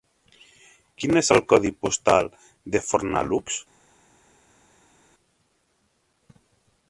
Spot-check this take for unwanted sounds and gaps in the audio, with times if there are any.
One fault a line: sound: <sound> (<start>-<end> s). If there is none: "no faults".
no faults